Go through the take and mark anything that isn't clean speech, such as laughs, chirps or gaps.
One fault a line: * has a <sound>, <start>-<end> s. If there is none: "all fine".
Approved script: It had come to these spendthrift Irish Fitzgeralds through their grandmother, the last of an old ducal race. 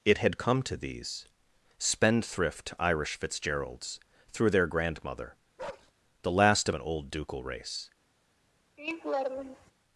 * has a bark, 5.6-5.9 s
* has a laugh, 8.8-9.7 s